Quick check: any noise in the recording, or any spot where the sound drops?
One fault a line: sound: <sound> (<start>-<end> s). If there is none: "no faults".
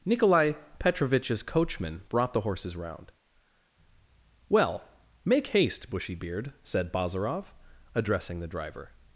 no faults